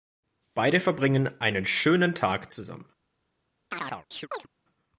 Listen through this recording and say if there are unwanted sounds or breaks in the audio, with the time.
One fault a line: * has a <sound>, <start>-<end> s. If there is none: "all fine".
* has a chirp, 3.7-4.5 s